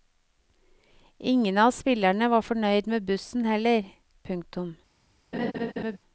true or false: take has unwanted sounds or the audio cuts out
true